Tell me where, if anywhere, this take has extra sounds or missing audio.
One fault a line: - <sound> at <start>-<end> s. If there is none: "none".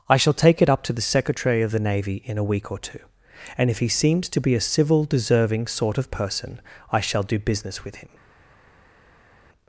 none